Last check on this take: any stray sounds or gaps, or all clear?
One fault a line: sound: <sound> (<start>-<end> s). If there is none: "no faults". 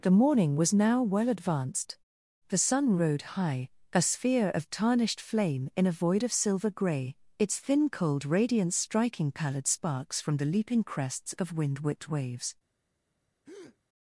sound: breath (13.4-13.8 s)